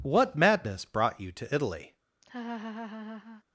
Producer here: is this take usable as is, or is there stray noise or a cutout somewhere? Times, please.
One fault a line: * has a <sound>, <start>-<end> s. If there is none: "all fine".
* has a laugh, 2.2-3.4 s